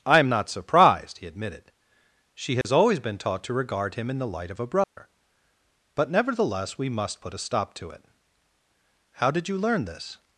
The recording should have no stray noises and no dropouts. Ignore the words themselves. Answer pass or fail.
fail